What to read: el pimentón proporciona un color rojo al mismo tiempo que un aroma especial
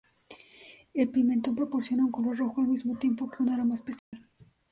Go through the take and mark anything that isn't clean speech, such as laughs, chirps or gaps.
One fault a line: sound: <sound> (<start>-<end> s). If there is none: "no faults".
sound: dropout (4.0-4.1 s)